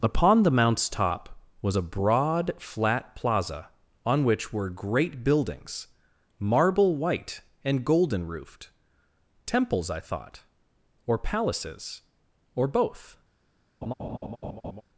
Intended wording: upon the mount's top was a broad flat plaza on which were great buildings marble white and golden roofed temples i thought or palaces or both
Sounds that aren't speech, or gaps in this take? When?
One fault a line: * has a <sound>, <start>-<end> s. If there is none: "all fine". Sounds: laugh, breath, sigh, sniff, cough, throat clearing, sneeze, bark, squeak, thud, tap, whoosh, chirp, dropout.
* has a laugh, 13.8-14.8 s